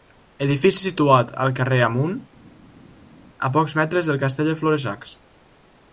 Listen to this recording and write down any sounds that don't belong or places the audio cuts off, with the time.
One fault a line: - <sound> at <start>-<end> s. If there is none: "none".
none